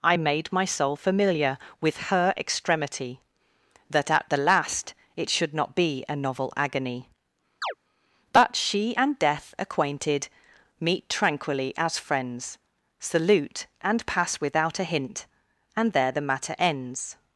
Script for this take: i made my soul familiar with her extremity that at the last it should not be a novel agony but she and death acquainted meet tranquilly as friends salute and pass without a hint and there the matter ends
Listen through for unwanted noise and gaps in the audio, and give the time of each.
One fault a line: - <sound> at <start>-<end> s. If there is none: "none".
- chirp at 7.6-7.7 s